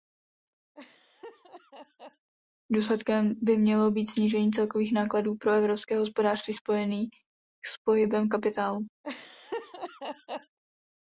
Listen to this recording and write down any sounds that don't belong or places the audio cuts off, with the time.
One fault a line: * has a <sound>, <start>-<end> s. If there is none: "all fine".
* has a laugh, 0.7-2.3 s
* has a laugh, 9.0-10.6 s